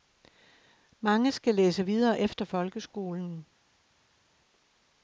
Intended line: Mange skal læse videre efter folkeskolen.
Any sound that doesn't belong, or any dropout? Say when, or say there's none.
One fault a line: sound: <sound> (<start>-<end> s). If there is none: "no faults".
no faults